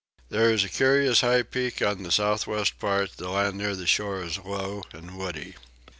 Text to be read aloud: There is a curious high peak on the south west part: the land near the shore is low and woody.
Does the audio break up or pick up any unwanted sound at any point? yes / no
no